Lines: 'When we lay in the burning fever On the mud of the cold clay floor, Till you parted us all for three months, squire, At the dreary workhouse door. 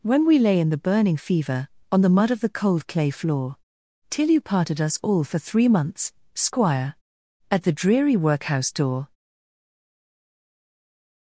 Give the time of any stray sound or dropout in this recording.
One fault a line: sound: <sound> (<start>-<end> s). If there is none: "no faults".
no faults